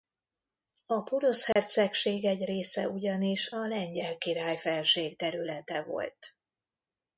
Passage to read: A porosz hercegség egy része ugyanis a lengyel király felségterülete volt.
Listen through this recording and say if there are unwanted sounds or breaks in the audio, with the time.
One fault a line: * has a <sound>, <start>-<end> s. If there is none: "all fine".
* has a dropout, 1.5-1.6 s